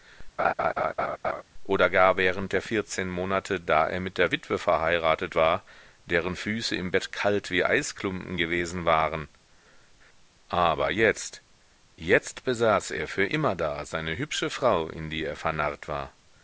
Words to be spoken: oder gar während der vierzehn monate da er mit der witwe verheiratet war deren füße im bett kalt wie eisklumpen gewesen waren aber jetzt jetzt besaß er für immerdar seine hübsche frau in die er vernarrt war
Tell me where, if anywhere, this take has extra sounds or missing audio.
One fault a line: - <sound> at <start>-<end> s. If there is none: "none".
- laugh at 0.4-1.4 s